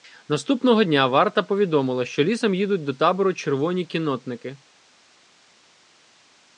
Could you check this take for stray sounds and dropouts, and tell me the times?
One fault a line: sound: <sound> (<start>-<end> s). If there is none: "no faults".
no faults